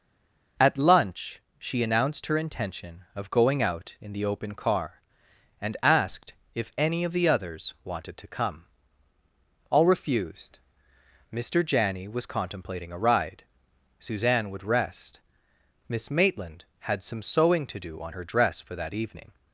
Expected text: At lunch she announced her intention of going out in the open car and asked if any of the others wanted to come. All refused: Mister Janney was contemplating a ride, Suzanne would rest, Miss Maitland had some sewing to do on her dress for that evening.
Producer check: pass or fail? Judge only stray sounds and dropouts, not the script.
pass